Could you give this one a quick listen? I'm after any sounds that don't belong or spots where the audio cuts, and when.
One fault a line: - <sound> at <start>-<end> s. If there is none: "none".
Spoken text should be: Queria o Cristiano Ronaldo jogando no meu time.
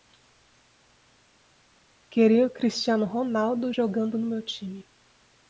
none